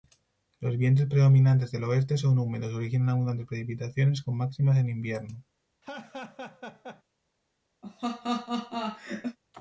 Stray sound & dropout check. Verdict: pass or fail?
fail